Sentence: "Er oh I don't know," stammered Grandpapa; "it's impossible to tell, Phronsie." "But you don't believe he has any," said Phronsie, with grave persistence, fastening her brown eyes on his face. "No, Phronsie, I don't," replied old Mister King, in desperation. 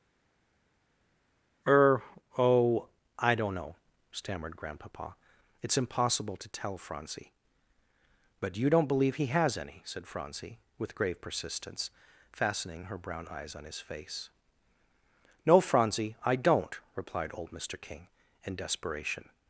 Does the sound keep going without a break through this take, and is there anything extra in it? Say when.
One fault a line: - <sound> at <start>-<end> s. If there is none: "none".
none